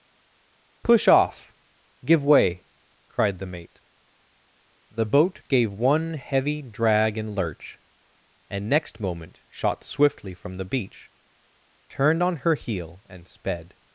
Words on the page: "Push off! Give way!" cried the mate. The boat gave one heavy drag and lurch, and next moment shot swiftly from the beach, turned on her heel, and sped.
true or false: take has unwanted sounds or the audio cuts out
false